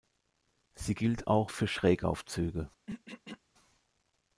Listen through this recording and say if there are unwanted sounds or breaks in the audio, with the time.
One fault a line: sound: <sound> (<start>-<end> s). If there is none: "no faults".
sound: throat clearing (2.9-3.4 s)